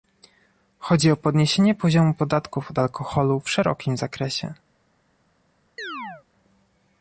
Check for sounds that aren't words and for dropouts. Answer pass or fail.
fail